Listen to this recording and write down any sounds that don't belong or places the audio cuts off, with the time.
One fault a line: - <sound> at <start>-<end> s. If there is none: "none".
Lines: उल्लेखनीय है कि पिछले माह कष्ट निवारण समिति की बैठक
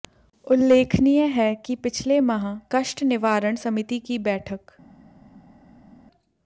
none